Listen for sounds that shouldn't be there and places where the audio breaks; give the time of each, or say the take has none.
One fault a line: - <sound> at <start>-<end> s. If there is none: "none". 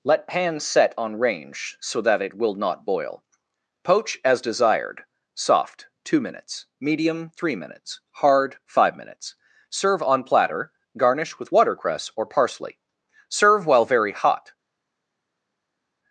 none